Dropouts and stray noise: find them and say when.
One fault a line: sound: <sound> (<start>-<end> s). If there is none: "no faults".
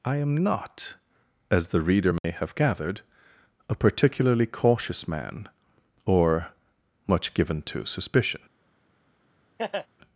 sound: dropout (2.2-2.2 s)
sound: laugh (9.6-9.9 s)